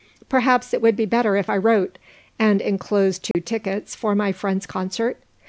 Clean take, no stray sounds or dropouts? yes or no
no